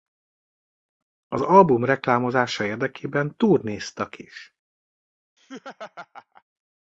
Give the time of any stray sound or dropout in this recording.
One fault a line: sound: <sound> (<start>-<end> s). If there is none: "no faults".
sound: laugh (5.4-6.4 s)